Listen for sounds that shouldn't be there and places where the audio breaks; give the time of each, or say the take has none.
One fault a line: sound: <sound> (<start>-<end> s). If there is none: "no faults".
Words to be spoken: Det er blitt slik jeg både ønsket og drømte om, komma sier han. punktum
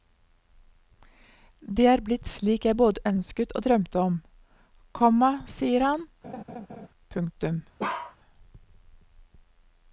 sound: laugh (6.2-6.9 s)
sound: bark (7.8-8.2 s)